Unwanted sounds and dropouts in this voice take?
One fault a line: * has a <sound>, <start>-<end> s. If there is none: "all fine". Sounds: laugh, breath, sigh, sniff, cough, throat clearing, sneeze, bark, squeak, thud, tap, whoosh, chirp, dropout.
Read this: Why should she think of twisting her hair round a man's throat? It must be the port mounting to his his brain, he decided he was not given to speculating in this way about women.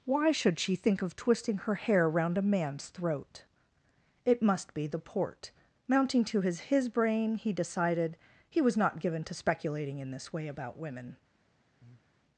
* has a breath, 11.8-12.1 s